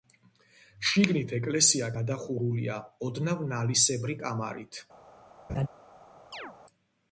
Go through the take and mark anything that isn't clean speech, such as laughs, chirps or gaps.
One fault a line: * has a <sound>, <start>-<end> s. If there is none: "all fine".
* has a laugh, 5.5-5.7 s
* has a chirp, 6.3-6.6 s